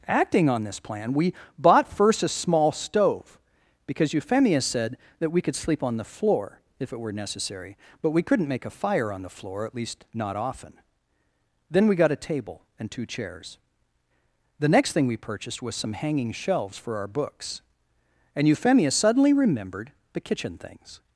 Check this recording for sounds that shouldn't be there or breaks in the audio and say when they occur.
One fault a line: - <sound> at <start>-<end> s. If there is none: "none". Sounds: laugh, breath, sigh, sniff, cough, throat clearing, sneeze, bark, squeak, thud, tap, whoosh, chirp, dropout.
none